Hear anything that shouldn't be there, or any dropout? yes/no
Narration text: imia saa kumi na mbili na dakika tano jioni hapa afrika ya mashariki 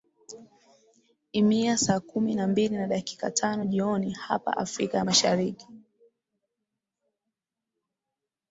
no